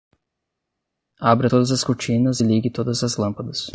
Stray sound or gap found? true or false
false